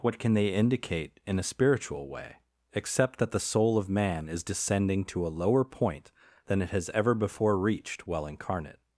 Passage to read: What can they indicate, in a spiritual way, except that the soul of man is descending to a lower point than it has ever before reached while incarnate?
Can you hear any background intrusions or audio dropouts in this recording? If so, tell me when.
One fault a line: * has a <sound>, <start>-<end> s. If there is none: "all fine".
all fine